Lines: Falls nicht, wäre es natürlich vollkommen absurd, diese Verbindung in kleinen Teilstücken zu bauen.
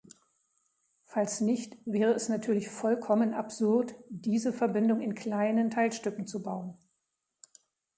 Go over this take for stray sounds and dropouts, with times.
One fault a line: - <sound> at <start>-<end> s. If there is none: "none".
none